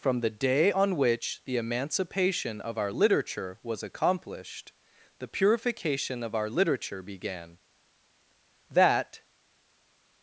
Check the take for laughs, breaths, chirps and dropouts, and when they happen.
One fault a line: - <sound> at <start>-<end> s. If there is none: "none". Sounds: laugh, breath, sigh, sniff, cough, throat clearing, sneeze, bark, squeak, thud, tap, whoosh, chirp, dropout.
none